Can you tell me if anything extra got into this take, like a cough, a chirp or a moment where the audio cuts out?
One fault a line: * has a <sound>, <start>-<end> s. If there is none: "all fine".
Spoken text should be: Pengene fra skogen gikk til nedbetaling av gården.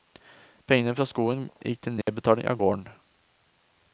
* has a dropout, 2.0-2.1 s